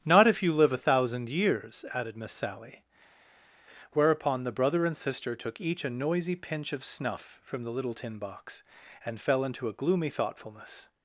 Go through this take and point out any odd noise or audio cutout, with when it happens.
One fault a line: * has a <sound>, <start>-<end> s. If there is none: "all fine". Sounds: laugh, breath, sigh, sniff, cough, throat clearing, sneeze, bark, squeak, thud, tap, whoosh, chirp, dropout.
all fine